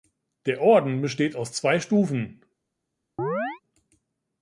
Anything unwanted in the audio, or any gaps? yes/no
yes